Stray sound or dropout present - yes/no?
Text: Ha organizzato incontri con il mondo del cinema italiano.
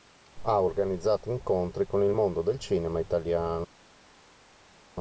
no